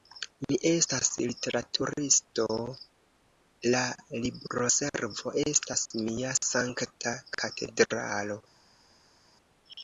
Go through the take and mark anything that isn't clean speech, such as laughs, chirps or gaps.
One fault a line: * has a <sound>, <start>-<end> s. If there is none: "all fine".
all fine